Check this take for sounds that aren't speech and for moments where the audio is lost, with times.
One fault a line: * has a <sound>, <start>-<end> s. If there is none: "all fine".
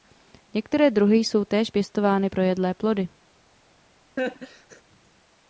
* has a laugh, 4.2-4.8 s